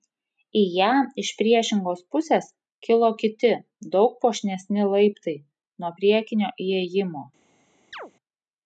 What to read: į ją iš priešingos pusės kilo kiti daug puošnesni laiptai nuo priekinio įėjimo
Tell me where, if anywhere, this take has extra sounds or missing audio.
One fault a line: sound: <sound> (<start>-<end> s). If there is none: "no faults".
sound: chirp (7.9-8.1 s)